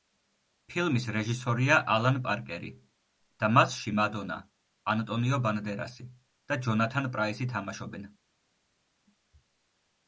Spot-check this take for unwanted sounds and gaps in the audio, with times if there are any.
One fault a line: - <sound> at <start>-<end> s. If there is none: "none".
none